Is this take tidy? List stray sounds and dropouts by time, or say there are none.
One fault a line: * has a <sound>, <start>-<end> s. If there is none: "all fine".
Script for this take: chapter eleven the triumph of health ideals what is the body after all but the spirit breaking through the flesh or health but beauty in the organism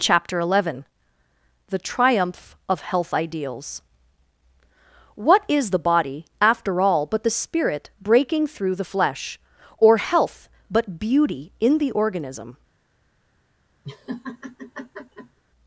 * has a laugh, 13.8-15.4 s